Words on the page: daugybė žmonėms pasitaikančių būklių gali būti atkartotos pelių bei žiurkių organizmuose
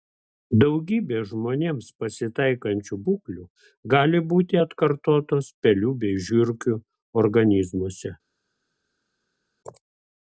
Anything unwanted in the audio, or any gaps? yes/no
no